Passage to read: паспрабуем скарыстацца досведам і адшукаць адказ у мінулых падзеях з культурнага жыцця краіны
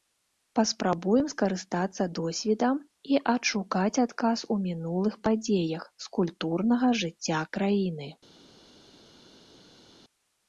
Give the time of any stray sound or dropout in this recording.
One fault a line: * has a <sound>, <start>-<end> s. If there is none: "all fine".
all fine